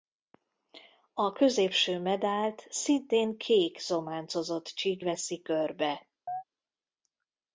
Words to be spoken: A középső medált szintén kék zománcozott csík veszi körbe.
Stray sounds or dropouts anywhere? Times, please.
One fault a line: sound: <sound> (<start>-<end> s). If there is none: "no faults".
sound: chirp (6.3-6.4 s)